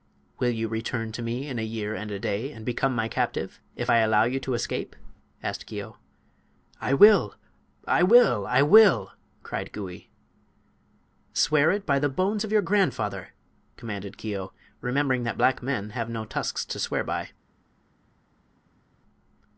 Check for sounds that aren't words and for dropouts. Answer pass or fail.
pass